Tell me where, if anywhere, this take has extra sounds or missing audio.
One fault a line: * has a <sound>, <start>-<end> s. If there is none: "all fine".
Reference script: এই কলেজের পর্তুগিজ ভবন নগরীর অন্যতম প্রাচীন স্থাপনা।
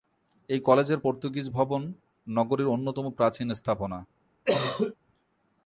* has a cough, 4.5-5.0 s